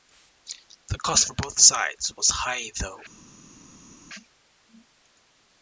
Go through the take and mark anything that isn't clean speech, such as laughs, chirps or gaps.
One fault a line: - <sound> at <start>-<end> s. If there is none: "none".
none